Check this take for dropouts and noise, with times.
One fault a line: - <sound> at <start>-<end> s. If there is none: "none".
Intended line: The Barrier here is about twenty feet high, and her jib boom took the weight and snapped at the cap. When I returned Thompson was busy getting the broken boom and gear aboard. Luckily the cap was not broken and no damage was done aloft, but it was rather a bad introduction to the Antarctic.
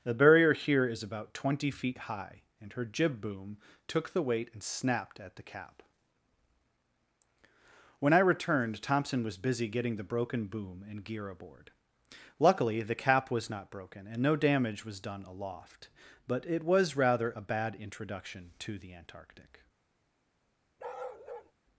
- bark at 20.8-21.5 s